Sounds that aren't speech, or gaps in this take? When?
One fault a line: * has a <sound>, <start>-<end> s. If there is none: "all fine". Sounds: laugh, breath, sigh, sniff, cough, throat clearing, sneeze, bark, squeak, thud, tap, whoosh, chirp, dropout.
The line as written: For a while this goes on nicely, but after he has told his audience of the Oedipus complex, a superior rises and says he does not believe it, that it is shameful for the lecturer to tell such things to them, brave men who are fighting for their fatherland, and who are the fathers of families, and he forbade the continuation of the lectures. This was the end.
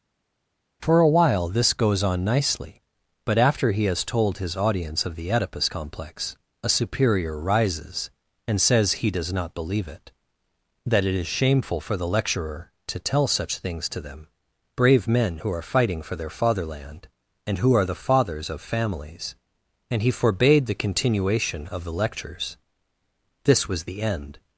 all fine